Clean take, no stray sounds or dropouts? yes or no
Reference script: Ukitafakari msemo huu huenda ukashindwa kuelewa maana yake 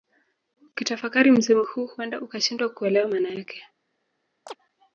no